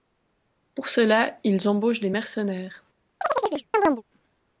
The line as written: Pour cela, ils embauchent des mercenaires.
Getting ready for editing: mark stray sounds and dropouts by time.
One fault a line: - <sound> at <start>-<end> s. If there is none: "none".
- chirp at 3.2-4.0 s